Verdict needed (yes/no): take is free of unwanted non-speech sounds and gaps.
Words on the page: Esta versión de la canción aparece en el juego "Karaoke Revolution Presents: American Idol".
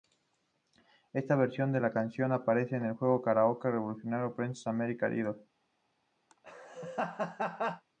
no